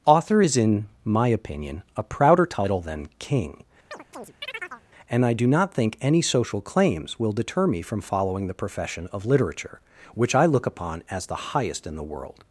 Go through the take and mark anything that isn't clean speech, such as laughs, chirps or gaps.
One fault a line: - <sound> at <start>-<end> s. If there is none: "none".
- chirp at 3.9-4.8 s